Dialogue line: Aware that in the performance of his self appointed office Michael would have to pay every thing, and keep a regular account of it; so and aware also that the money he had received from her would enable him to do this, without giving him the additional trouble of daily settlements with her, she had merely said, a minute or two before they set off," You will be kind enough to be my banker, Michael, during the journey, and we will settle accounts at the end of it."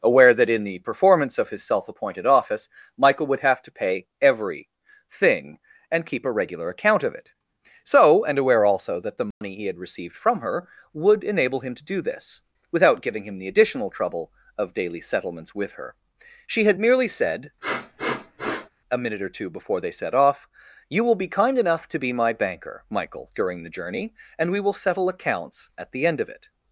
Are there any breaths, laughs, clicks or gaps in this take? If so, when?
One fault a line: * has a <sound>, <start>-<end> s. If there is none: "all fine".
* has a dropout, 9.3-9.4 s
* has a sniff, 17.6-18.7 s